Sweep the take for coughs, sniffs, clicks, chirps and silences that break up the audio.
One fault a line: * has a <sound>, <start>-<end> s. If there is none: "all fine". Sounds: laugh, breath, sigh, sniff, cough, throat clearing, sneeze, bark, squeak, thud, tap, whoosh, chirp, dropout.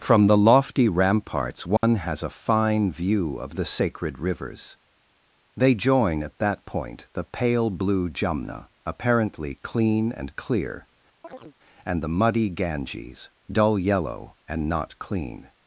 * has a dropout, 1.8-1.8 s
* has a chirp, 11.2-11.6 s